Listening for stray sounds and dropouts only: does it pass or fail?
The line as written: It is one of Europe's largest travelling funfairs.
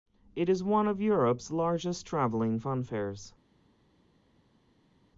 pass